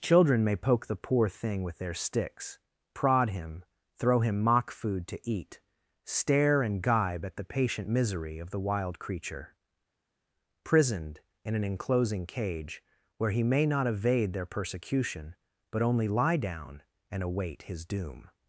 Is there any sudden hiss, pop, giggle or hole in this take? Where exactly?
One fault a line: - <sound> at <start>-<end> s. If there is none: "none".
none